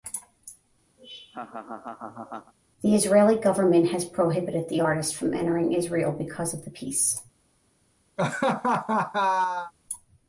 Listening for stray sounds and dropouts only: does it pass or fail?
fail